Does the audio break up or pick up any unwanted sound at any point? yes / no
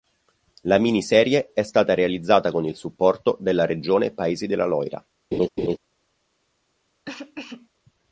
yes